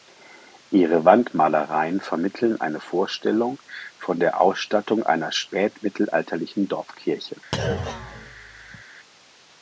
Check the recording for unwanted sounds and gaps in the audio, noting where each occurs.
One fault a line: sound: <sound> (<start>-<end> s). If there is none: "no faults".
sound: thud (7.5-8.8 s)